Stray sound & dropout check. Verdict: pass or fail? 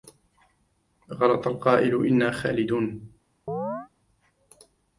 fail